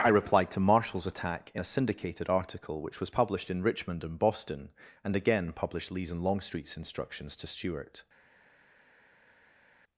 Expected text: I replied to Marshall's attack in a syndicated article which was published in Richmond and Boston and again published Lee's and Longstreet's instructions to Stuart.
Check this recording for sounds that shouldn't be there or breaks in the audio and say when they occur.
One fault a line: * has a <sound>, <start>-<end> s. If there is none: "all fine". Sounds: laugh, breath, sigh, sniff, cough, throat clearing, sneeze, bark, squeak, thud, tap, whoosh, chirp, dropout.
all fine